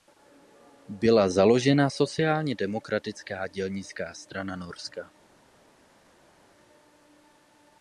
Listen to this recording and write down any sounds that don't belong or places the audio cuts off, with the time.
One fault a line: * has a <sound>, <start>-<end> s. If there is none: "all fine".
all fine